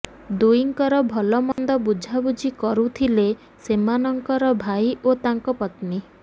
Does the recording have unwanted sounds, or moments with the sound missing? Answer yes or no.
yes